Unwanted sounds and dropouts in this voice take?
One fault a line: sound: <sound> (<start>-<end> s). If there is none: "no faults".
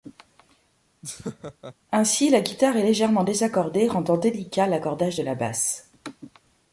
sound: laugh (1.0-1.7 s)